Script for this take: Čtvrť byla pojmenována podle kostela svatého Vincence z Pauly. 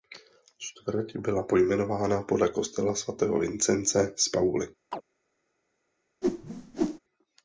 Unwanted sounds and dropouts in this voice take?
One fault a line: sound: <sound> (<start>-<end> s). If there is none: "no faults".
sound: chirp (4.9-5.0 s)
sound: whoosh (6.2-7.0 s)